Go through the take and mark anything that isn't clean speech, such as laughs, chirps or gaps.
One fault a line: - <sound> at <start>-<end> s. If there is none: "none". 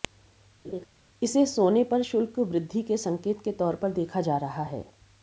- laugh at 0.6-0.9 s